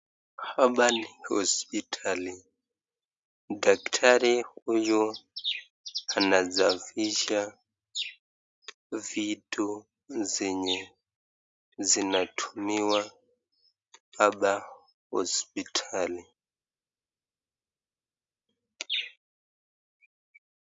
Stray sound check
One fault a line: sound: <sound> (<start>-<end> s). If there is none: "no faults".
no faults